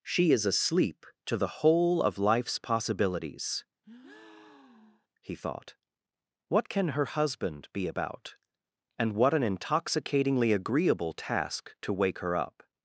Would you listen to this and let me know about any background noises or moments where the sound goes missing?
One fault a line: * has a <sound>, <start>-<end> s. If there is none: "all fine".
* has a breath, 3.8-5.1 s